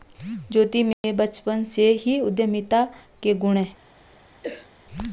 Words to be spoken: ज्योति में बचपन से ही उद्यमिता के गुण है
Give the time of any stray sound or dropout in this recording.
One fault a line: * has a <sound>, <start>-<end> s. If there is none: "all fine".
* has a dropout, 0.9-1.0 s
* has a cough, 4.4-4.7 s